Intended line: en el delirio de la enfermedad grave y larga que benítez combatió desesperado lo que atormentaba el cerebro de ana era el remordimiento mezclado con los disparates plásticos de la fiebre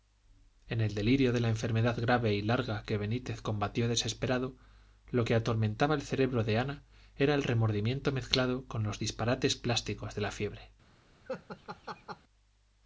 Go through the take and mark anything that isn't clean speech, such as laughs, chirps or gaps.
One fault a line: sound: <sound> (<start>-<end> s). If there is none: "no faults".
sound: laugh (11.3-12.2 s)